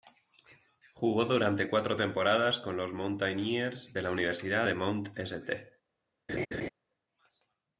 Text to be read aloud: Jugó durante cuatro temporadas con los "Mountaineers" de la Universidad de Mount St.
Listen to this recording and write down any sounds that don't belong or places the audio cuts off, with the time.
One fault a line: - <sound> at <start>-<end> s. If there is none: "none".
- laugh at 6.3-6.7 s